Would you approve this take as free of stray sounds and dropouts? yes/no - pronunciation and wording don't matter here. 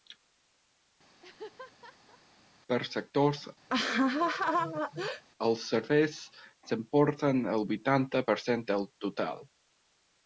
no